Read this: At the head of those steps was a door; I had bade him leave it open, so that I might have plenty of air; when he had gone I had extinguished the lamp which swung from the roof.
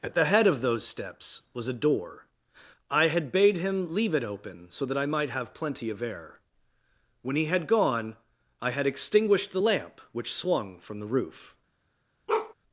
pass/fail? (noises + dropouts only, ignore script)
fail